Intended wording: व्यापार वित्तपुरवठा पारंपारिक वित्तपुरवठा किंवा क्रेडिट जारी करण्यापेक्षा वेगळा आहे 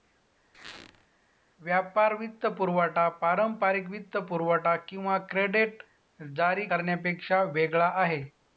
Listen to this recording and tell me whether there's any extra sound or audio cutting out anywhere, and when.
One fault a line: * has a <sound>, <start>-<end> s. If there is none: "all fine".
* has a squeak, 0.5-1.1 s